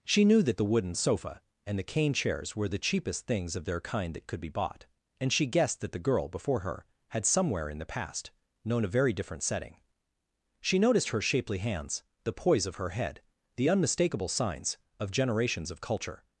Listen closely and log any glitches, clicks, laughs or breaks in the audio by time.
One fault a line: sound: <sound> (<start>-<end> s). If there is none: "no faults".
no faults